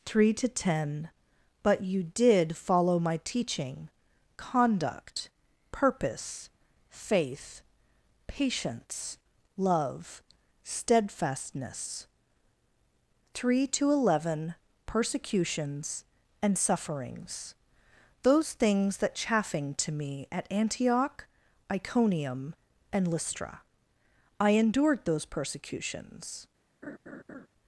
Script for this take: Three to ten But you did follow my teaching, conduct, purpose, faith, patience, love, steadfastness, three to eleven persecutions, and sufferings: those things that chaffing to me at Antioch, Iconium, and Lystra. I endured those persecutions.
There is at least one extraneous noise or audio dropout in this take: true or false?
true